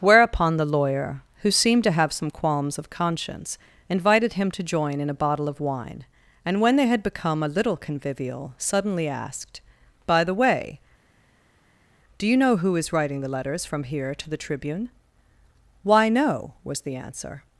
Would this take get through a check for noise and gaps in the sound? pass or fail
pass